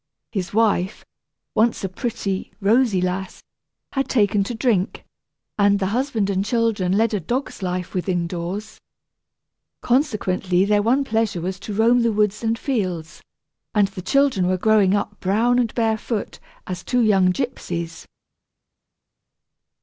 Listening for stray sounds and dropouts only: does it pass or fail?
pass